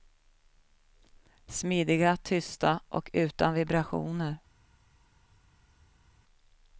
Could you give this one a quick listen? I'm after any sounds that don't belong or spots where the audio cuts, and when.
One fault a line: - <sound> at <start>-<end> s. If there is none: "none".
none